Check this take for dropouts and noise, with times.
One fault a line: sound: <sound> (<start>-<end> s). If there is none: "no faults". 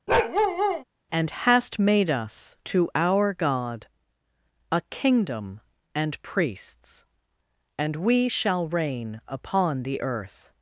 sound: bark (0.1-0.8 s)